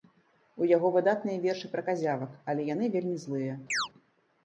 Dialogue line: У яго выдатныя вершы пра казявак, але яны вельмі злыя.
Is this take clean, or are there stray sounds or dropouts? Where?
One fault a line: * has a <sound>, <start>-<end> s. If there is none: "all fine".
* has a chirp, 3.7-3.9 s